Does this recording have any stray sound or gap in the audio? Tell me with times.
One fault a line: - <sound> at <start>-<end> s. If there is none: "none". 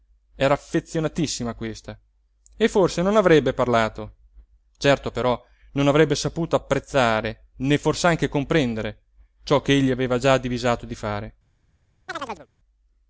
- chirp at 12.1-12.5 s